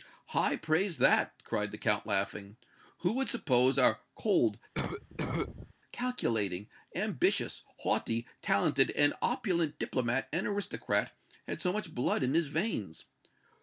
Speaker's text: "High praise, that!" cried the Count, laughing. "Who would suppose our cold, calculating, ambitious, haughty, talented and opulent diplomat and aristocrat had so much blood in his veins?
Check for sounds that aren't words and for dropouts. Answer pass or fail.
fail